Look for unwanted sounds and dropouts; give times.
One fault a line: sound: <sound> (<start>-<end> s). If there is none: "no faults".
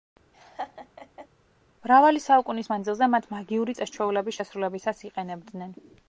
sound: laugh (0.3-1.3 s)